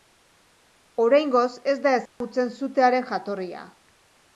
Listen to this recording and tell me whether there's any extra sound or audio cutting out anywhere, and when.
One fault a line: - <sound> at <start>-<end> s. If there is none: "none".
- dropout at 2.1-2.2 s